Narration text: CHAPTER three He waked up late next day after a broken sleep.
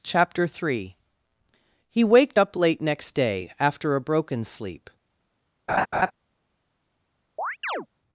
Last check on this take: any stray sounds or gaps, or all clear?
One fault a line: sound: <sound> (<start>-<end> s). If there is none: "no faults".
sound: laugh (5.7-6.1 s)
sound: chirp (7.4-7.9 s)